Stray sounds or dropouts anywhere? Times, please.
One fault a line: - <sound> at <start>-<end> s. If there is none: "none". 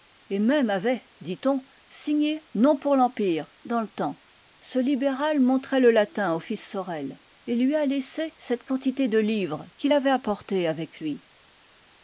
none